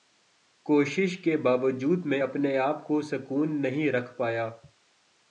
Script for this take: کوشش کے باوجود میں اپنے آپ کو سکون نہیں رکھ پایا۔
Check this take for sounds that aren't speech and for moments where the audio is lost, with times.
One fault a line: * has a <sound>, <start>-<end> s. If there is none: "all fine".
all fine